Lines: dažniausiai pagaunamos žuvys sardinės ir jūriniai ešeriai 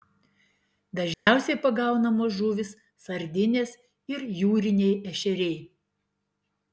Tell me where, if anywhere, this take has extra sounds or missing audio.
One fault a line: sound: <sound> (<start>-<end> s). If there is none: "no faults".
sound: dropout (1.1-1.3 s)